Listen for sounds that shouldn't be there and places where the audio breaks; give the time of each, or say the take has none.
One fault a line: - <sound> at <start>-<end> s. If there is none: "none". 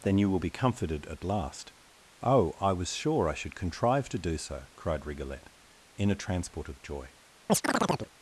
- chirp at 7.5-8.1 s